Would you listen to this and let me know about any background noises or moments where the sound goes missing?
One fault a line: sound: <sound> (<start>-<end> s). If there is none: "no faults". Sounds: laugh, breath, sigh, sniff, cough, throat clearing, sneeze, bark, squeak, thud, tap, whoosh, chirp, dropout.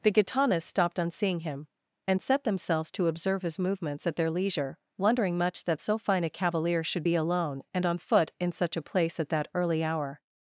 no faults